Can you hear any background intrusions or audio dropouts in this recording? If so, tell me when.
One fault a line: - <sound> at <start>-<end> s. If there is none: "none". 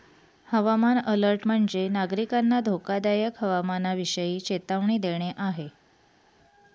none